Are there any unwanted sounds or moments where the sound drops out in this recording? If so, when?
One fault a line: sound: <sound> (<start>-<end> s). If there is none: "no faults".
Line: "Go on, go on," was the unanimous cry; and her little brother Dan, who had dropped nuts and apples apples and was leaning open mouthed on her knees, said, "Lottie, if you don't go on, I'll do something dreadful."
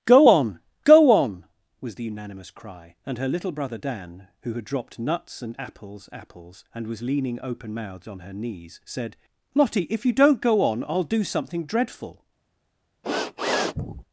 sound: sniff (13.0-14.0 s)